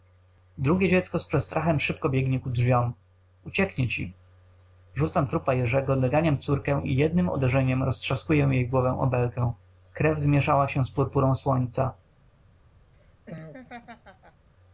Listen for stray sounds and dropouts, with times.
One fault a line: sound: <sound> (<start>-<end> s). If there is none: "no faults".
sound: laugh (12.9-14.5 s)